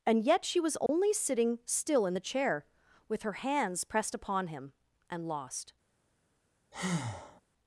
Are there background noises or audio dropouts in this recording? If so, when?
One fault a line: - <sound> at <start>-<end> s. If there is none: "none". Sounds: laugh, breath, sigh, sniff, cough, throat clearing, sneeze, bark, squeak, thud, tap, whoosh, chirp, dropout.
- dropout at 0.9-0.9 s
- breath at 6.7-7.4 s